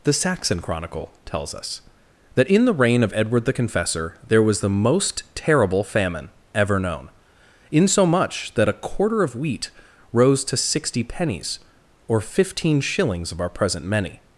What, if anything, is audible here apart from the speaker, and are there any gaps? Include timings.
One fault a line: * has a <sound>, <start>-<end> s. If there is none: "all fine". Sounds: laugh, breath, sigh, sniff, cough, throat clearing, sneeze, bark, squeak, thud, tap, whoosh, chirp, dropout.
all fine